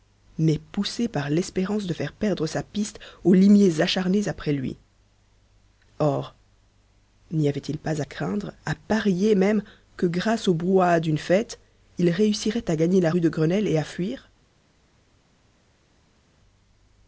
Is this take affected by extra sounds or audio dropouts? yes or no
no